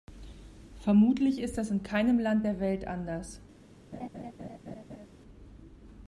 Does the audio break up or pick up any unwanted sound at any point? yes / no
yes